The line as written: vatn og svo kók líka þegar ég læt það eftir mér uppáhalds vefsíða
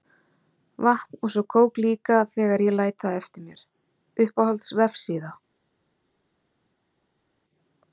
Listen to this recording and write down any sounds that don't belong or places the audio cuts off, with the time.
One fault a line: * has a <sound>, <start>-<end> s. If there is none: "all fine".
all fine